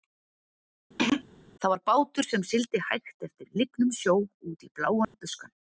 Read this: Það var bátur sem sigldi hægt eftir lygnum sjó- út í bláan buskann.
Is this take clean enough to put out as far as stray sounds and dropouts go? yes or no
no